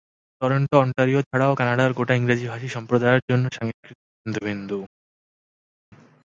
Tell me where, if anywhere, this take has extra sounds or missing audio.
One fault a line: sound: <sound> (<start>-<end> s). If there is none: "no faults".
no faults